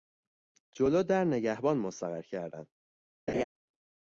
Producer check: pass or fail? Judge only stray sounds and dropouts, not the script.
fail